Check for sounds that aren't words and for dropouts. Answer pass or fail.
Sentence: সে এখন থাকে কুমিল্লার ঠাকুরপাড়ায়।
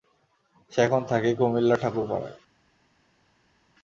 pass